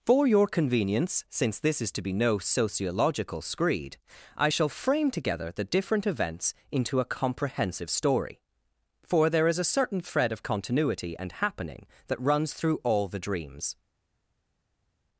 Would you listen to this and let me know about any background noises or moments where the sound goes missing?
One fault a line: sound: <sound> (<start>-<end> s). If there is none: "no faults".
no faults